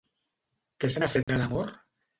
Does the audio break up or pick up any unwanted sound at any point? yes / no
yes